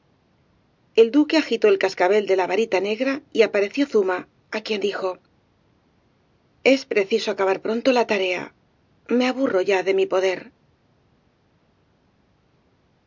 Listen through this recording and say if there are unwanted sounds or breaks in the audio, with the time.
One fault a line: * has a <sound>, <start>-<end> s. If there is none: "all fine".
all fine